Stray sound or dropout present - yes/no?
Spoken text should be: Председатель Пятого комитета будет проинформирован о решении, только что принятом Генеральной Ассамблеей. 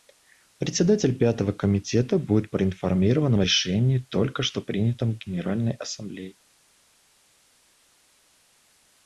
no